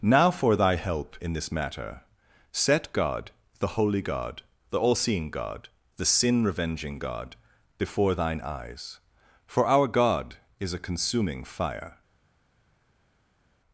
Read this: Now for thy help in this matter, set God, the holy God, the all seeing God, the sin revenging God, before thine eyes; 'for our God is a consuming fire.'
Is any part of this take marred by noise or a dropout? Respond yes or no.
no